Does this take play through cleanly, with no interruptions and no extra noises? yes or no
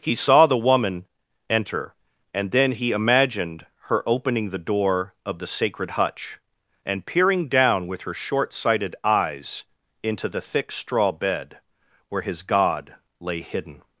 yes